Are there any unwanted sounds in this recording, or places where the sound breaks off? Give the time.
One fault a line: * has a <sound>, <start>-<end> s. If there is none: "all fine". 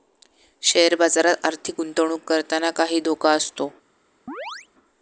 * has a chirp, 4.3-4.7 s